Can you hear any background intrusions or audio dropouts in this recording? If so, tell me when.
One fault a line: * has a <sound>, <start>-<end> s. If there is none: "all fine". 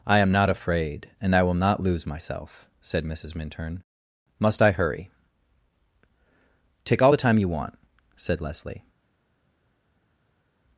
all fine